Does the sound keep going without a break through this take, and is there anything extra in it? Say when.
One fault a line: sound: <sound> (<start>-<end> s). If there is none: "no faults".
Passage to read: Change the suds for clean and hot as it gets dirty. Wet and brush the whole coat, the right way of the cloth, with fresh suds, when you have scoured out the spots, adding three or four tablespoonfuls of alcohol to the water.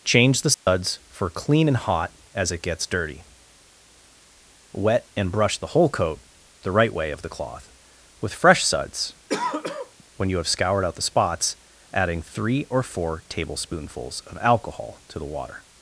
sound: dropout (0.5-0.7 s)
sound: throat clearing (9.3-10.0 s)